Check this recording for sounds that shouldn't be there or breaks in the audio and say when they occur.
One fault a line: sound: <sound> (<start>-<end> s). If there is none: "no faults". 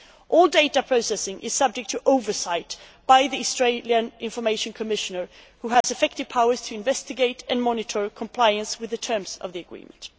sound: dropout (5.8-5.8 s)